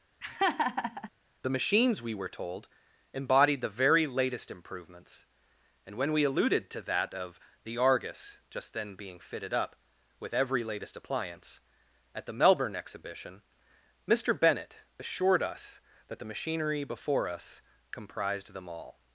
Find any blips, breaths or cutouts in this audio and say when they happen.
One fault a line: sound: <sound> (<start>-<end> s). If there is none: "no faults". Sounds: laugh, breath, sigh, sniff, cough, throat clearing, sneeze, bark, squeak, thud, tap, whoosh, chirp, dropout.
sound: laugh (0.2-1.1 s)